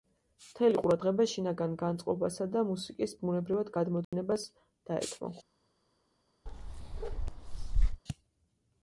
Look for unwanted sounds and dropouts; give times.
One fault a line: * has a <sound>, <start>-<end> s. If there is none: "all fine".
* has a dropout, 4.0-4.1 s
* has a bark, 6.5-8.0 s